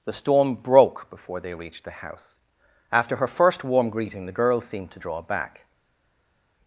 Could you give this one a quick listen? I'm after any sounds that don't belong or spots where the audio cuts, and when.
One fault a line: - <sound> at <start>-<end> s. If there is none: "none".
none